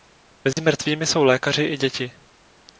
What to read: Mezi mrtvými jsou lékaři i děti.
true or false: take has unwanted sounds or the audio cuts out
true